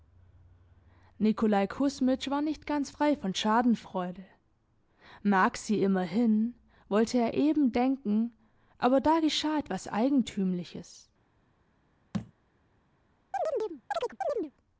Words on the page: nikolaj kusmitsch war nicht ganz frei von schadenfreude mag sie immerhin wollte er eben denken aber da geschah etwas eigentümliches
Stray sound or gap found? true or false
true